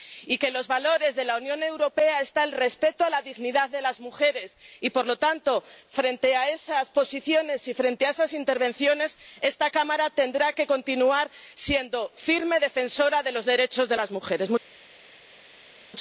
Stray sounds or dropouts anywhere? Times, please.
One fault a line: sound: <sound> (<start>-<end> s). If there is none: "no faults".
no faults